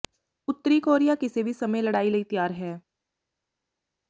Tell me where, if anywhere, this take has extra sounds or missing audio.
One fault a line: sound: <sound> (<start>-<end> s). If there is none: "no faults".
no faults